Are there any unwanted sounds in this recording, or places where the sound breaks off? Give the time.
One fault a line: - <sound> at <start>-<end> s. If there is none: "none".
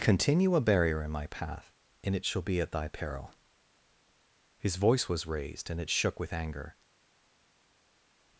none